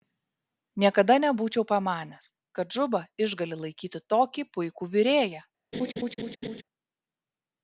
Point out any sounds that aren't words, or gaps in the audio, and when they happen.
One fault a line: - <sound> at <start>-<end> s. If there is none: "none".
- laugh at 5.7-6.6 s